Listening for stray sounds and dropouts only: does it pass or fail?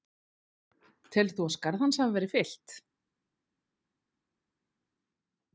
pass